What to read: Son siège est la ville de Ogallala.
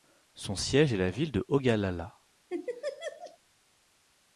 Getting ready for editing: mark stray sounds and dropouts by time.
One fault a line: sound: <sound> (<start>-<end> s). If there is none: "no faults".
sound: laugh (2.5-3.4 s)